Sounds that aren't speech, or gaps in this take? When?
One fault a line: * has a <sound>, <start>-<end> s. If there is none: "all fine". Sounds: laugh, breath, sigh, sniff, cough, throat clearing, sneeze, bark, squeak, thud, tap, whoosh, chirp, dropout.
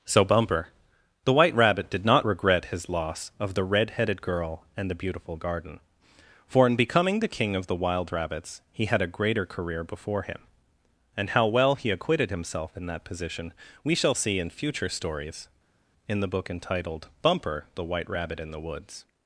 all fine